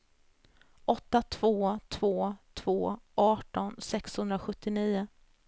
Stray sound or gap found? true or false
false